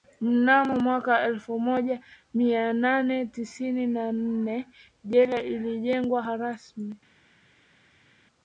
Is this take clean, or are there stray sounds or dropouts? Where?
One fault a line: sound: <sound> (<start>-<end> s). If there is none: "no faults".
no faults